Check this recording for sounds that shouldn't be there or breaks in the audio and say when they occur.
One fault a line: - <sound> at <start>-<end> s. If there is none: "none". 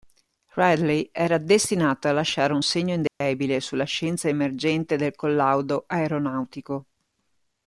- dropout at 3.1-3.2 s